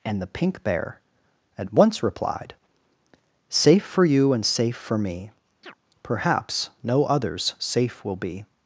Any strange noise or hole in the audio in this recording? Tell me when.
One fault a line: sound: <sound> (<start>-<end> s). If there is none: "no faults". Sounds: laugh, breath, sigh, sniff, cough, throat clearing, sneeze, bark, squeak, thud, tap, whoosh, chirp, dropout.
sound: chirp (5.6-5.8 s)